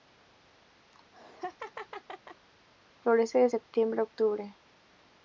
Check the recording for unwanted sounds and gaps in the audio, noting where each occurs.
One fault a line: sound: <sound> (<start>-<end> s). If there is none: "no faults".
sound: laugh (0.9-2.5 s)